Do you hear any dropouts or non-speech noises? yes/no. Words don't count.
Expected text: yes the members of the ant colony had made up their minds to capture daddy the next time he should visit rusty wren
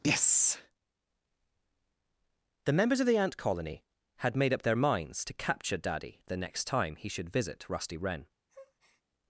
yes